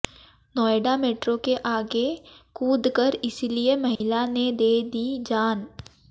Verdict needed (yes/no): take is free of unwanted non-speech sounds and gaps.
no